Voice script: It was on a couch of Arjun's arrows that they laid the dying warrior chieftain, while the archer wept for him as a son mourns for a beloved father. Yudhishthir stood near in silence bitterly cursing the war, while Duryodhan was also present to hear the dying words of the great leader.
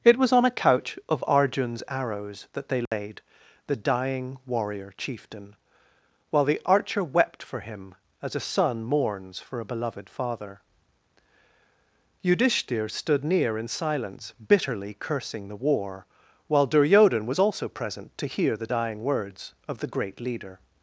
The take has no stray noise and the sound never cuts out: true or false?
false